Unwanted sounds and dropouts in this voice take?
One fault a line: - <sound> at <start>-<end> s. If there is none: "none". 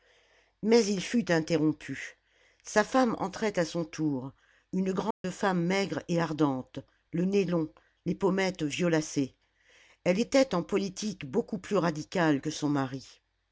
- dropout at 5.1-5.2 s